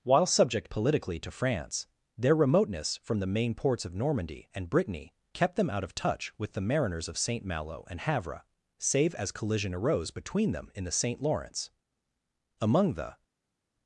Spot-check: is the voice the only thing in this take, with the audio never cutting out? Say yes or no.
yes